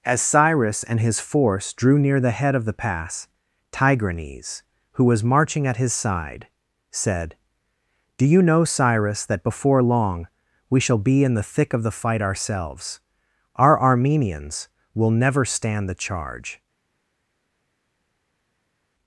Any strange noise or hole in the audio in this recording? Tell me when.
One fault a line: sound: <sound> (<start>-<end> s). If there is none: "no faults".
no faults